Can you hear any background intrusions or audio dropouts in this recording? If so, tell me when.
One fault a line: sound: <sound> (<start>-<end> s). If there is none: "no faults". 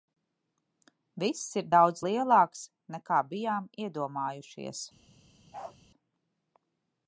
sound: bark (5.5-5.8 s)